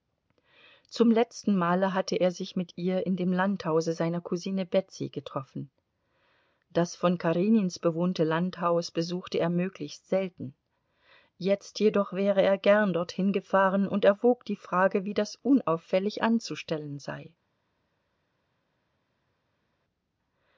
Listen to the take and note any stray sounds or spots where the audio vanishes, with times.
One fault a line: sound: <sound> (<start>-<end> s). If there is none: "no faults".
no faults